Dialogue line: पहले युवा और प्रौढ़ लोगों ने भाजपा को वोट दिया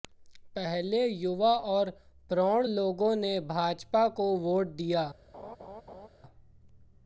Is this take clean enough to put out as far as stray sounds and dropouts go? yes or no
no